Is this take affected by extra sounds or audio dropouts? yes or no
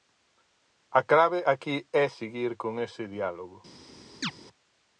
yes